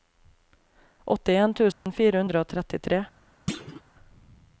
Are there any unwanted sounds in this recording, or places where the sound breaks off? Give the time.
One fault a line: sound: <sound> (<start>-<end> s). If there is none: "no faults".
sound: dropout (1.7-1.9 s)
sound: thud (3.5-3.8 s)